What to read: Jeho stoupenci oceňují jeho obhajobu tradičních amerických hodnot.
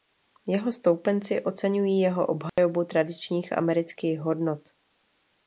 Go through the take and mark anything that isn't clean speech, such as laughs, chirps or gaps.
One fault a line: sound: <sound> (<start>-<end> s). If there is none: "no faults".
sound: dropout (2.5-2.6 s)